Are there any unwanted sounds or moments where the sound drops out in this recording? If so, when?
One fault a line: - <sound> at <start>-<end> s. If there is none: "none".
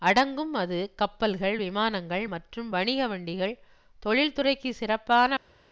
none